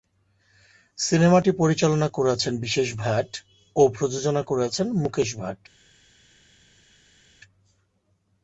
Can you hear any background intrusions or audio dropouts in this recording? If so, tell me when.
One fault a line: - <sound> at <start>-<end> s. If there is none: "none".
none